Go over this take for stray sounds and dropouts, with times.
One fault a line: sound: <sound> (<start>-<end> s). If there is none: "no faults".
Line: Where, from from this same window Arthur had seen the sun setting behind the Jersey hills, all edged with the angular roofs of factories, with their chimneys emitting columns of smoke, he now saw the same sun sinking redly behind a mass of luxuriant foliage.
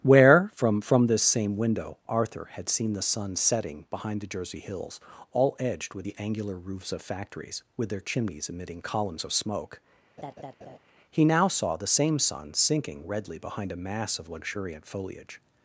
sound: laugh (10.2-10.8 s)